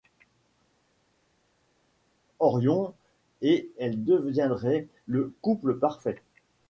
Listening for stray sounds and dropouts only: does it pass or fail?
pass